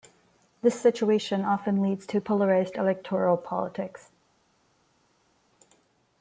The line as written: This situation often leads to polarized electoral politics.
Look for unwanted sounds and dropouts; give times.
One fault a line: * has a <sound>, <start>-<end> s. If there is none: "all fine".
all fine